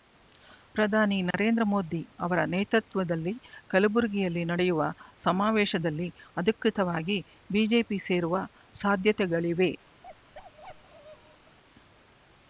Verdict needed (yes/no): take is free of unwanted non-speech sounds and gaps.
no